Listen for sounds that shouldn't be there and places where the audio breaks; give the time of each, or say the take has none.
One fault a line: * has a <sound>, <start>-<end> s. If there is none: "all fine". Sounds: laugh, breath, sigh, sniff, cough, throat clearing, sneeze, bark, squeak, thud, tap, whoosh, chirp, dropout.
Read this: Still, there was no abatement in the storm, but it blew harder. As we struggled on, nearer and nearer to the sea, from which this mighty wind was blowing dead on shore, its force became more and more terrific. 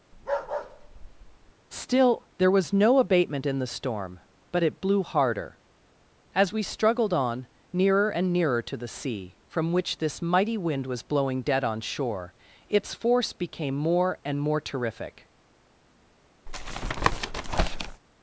* has a bark, 0.1-1.5 s
* has a tap, 16.5-18.0 s